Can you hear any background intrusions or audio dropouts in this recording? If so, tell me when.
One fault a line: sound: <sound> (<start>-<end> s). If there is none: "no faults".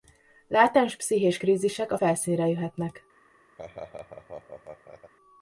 sound: laugh (3.6-5.1 s)